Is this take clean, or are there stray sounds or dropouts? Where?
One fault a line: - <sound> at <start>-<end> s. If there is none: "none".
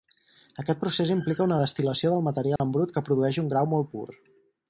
- dropout at 2.6-2.6 s